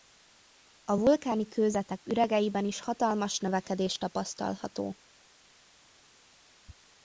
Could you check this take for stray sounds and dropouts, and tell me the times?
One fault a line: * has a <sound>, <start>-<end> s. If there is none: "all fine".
all fine